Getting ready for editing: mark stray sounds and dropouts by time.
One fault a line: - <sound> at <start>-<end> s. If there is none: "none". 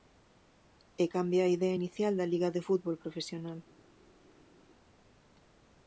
none